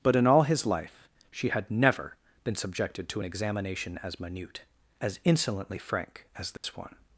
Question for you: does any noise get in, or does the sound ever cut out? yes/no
yes